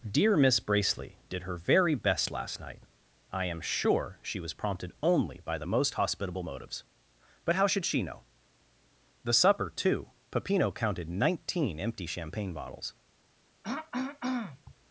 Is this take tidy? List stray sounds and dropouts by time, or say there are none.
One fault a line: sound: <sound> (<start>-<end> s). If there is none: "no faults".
sound: throat clearing (13.6-14.7 s)